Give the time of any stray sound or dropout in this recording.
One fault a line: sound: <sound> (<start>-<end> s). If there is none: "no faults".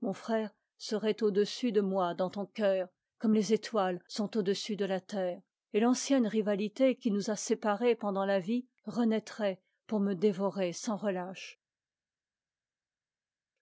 no faults